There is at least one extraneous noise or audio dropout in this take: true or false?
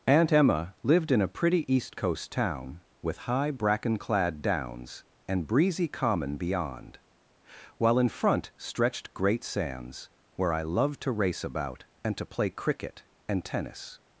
false